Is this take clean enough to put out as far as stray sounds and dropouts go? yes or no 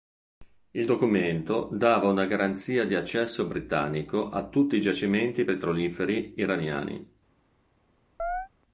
no